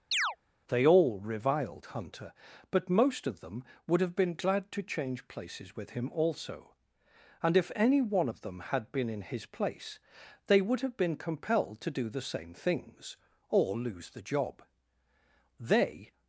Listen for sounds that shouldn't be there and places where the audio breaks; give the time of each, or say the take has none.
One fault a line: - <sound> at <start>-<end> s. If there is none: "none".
- chirp at 0.1-0.4 s